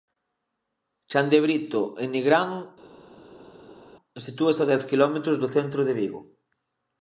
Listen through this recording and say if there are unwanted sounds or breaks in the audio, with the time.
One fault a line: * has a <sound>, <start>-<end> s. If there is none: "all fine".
all fine